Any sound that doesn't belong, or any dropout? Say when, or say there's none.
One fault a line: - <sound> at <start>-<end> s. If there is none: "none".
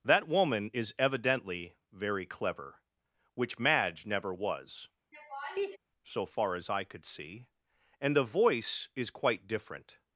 - laugh at 5.1-5.8 s